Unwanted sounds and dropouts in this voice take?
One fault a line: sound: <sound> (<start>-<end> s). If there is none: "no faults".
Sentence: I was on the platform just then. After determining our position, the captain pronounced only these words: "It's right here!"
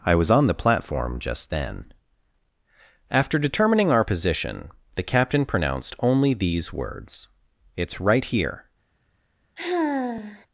sound: sigh (9.6-10.5 s)